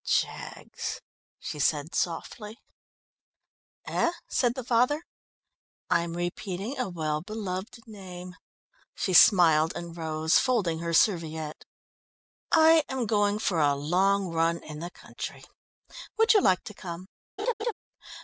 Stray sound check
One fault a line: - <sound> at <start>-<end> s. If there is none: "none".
- laugh at 17.4-17.7 s